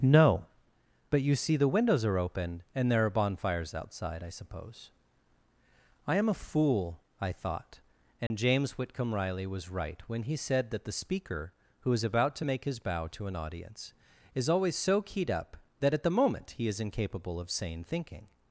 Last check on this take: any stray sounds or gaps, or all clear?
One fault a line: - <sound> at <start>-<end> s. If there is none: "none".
- dropout at 8.3-8.3 s